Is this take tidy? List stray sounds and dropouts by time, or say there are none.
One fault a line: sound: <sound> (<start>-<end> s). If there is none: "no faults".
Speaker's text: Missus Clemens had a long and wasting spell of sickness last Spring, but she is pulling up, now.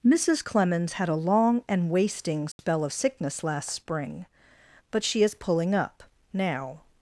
sound: dropout (2.5-2.6 s)